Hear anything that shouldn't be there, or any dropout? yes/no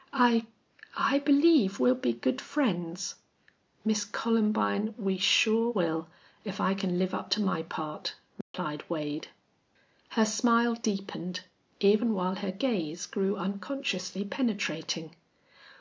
yes